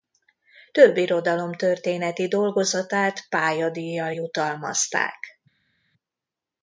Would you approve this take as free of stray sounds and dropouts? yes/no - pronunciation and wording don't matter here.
yes